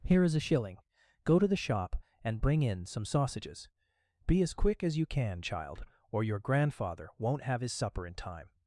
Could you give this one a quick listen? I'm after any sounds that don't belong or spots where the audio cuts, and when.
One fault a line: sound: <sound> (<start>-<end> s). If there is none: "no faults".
no faults